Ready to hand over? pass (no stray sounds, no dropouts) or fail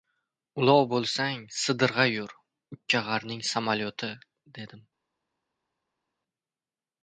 pass